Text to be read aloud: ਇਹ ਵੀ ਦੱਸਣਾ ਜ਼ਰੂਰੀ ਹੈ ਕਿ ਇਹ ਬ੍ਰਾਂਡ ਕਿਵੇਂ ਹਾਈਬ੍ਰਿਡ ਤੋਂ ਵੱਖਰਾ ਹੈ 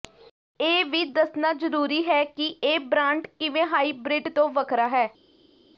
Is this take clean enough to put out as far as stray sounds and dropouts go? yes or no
yes